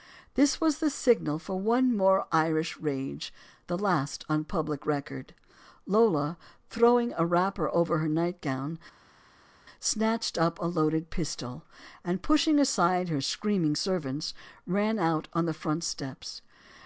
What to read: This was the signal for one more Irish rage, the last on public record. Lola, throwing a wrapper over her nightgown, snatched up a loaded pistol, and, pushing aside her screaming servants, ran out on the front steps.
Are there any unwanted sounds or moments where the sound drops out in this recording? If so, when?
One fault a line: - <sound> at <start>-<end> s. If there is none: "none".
none